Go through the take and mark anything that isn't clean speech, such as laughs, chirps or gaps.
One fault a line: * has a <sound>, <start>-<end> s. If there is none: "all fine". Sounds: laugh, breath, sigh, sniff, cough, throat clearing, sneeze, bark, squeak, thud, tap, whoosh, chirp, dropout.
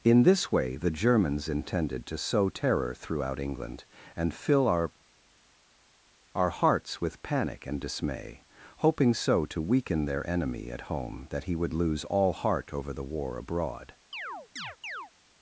* has a chirp, 14.1-15.1 s